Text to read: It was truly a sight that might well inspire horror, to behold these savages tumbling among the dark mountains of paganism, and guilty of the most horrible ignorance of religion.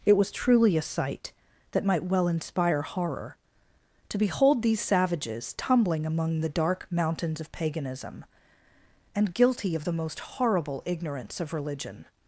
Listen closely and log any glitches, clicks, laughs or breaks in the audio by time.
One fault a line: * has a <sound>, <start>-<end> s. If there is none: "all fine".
all fine